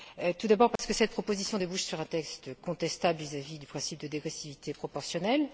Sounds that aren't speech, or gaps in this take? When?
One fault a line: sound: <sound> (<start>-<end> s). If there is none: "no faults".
sound: dropout (0.8-0.8 s)